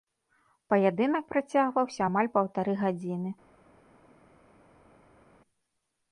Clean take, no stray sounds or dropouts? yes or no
yes